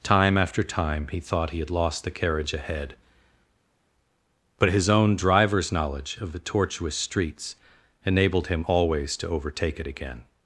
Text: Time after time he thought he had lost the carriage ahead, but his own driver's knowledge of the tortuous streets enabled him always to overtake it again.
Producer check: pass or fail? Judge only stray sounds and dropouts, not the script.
pass